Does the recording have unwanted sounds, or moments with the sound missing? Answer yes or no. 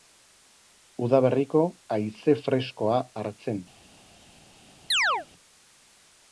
yes